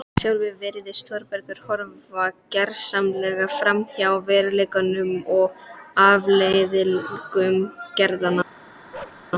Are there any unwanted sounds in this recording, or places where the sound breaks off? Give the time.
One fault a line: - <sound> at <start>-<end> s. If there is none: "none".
- bark at 8.9-9.3 s